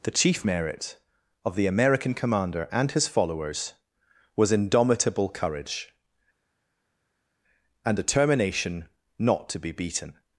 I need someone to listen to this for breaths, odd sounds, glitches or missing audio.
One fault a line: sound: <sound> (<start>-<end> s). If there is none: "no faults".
no faults